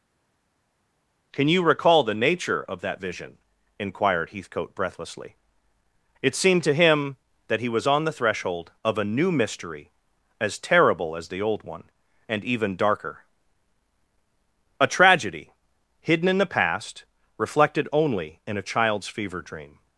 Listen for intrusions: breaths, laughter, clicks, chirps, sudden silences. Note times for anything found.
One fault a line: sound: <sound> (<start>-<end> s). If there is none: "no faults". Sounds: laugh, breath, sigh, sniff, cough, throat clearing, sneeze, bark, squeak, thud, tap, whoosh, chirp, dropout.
no faults